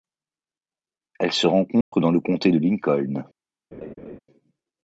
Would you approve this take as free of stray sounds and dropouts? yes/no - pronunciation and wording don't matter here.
no